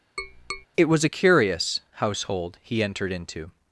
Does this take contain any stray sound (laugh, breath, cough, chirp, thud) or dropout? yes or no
yes